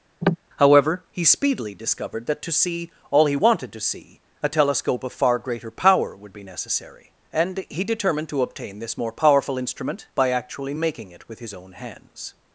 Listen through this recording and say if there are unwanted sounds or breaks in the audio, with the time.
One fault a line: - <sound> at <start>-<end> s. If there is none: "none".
- cough at 0.2-0.4 s